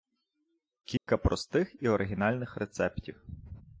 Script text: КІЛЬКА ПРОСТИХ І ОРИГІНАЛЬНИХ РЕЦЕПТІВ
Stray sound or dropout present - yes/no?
yes